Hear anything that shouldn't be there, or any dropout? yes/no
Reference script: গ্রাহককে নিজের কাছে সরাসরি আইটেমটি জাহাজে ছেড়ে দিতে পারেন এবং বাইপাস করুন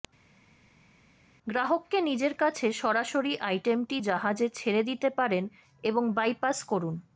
no